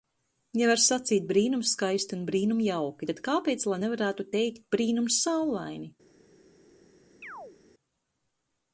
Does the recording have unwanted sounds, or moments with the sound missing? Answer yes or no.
yes